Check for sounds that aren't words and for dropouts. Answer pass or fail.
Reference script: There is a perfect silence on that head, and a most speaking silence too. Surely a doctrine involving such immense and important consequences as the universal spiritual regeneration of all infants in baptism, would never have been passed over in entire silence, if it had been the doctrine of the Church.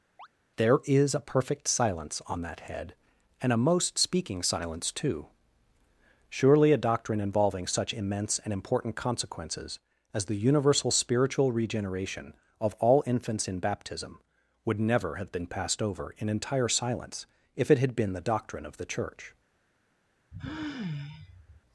fail